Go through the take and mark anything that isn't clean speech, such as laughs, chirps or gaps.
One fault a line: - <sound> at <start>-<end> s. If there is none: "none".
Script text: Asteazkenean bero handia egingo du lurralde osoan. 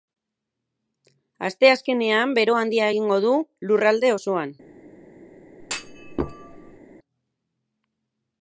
- thud at 5.6-6.8 s